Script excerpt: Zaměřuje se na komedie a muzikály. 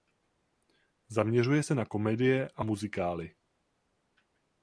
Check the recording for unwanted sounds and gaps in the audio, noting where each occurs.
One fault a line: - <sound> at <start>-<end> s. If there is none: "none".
none